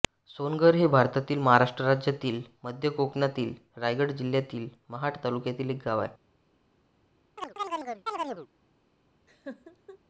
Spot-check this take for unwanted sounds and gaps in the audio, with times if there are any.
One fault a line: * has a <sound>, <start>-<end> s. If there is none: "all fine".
* has a chirp, 7.4-8.5 s
* has a laugh, 9.3-10.0 s